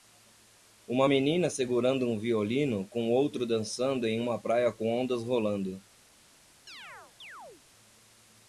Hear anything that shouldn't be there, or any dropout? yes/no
yes